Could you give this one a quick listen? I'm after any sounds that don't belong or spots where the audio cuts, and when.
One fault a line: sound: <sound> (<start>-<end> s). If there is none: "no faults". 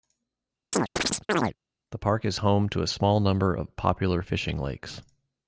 sound: chirp (0.7-1.5 s)